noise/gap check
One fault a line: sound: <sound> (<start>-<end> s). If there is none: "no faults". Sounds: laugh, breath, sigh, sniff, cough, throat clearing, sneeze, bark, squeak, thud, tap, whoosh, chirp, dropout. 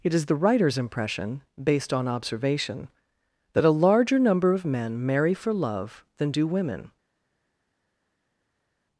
no faults